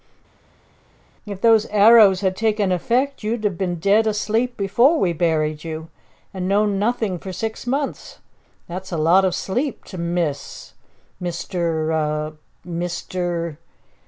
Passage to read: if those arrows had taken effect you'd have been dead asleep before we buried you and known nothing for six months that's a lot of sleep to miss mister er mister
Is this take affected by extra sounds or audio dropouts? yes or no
no